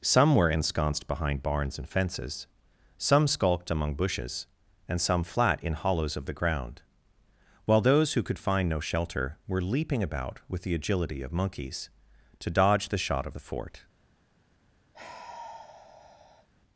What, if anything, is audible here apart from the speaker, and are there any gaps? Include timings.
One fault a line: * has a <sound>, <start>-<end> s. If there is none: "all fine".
* has a sigh, 14.9-16.5 s